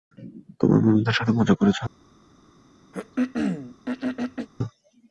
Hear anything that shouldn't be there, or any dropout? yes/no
yes